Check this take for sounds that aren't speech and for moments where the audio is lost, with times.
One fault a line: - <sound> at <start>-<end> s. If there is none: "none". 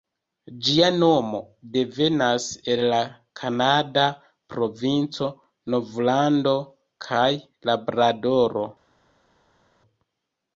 none